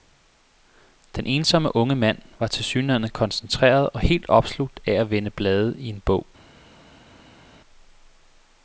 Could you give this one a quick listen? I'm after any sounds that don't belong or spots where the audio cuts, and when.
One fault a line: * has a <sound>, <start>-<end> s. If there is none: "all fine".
all fine